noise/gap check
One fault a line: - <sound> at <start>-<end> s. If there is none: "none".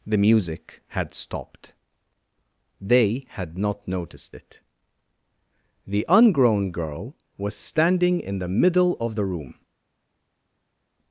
none